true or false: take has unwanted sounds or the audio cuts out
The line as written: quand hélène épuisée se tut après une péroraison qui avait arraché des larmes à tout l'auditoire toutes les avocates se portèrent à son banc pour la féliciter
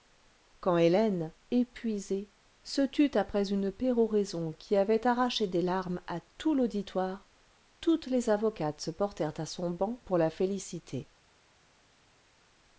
false